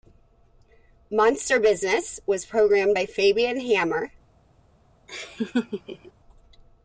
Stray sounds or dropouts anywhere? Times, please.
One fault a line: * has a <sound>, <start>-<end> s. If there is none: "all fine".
* has a laugh, 5.1-6.1 s